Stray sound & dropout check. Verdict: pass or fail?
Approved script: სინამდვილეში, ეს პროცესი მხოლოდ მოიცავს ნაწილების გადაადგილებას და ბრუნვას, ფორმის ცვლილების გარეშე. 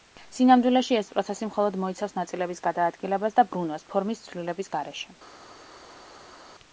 pass